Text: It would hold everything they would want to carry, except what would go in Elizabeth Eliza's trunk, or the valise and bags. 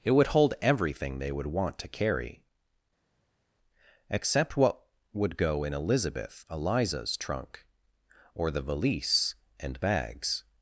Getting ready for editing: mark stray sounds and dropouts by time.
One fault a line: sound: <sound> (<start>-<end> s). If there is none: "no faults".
no faults